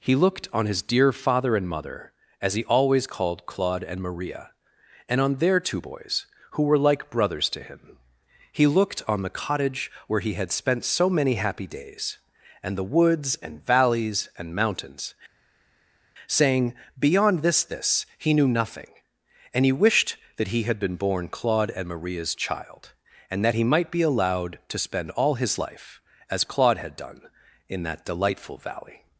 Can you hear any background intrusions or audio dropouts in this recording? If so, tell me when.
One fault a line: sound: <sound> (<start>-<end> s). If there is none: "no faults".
no faults